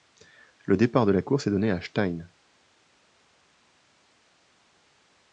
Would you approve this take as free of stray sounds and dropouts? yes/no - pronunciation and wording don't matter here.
yes